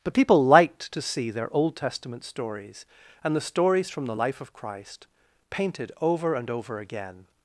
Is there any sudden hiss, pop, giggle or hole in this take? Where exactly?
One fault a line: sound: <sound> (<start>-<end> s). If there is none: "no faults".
no faults